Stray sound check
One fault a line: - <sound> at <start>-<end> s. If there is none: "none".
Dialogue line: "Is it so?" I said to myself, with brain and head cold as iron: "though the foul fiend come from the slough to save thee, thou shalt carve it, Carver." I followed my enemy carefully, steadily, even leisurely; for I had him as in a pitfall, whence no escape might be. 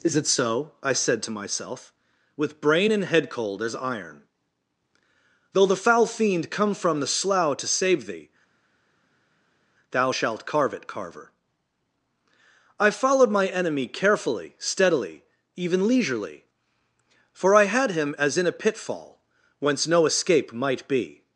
none